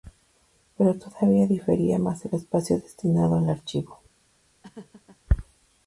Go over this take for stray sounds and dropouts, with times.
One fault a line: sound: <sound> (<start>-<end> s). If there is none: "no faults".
sound: laugh (4.6-5.2 s)